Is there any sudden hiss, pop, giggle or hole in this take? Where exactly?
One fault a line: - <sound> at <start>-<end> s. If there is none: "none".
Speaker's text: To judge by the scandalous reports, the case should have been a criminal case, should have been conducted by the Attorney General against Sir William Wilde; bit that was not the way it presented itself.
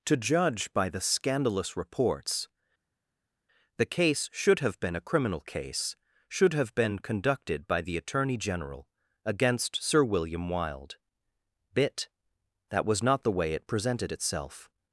none